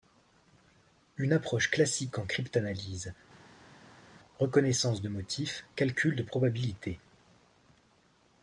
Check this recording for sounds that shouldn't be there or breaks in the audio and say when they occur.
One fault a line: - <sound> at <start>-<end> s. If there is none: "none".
none